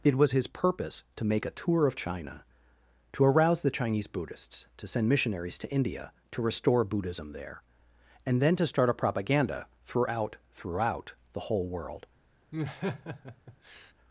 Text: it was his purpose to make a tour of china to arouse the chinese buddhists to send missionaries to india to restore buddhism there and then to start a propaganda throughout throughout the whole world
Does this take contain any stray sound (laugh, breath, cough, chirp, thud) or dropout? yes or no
yes